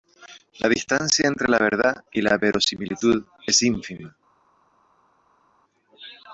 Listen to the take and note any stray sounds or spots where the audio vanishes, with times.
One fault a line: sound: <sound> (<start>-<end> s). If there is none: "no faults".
no faults